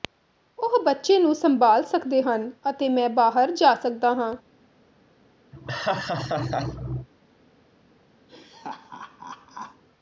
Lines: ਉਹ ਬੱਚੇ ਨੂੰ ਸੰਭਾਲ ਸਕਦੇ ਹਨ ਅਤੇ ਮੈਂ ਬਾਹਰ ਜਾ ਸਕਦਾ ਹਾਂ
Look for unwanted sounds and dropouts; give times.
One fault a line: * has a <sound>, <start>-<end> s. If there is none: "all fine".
* has a laugh, 5.5-7.1 s
* has a laugh, 8.3-9.8 s